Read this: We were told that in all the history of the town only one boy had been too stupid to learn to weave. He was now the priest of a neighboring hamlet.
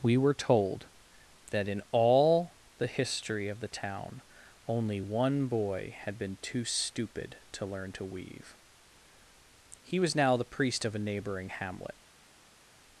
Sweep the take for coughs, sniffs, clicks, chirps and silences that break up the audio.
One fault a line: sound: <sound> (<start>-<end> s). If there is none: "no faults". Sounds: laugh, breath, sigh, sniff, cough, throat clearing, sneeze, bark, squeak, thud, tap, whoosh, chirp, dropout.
no faults